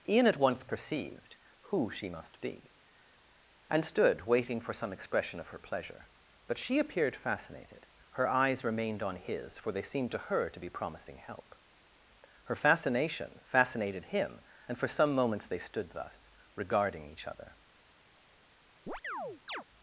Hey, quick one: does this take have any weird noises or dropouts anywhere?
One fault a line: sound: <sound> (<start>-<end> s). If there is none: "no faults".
sound: chirp (18.9-19.6 s)